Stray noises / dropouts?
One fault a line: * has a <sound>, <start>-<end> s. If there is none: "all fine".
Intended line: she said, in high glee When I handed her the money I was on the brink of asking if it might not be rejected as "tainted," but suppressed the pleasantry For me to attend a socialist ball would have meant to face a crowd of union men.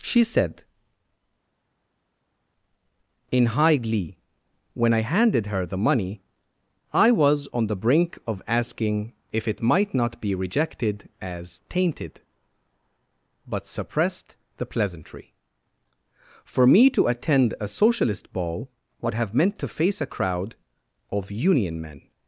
all fine